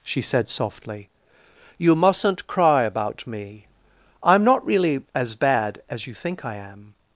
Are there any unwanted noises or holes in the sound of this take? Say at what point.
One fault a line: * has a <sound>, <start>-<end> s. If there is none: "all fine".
all fine